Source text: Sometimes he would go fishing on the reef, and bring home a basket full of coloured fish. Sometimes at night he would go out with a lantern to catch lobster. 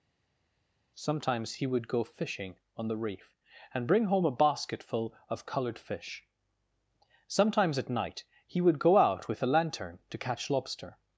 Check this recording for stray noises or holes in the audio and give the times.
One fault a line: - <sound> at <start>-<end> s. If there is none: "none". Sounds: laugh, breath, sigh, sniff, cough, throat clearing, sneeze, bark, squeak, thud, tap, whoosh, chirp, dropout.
none